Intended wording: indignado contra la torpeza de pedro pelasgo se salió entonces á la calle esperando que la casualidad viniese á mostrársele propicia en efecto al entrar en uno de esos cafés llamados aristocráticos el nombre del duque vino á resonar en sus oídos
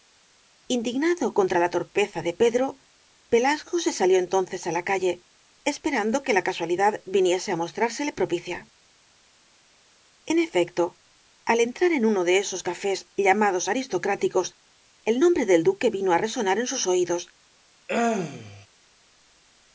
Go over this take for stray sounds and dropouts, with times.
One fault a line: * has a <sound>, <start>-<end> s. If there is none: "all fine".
* has a throat clearing, 17.9-18.7 s